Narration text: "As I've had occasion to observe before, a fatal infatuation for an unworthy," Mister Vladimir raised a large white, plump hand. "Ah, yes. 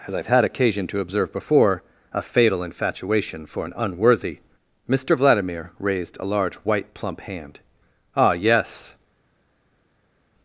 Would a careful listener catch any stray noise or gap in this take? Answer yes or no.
no